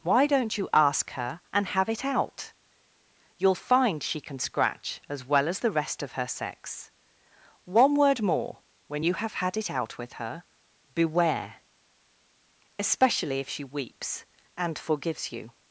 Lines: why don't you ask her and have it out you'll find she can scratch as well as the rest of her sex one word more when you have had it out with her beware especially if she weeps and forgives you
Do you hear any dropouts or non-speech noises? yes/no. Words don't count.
no